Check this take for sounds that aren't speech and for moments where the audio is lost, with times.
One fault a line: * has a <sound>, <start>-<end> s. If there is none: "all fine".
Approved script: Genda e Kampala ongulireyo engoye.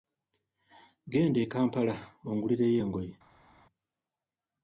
all fine